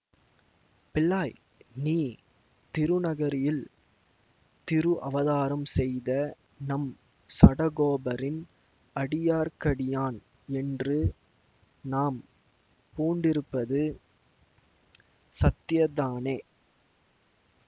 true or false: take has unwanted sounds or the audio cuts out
false